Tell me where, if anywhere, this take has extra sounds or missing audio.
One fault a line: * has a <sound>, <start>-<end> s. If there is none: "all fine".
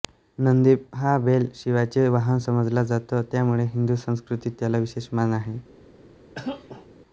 * has a cough, 6.3-6.9 s